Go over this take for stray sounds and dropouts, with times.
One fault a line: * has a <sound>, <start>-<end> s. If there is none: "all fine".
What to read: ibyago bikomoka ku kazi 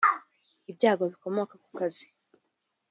all fine